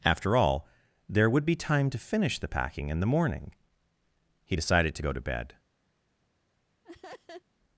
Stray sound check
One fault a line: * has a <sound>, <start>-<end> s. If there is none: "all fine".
* has a laugh, 6.8-7.4 s